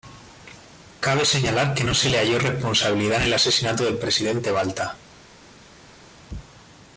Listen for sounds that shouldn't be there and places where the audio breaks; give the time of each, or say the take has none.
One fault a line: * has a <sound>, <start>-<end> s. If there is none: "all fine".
all fine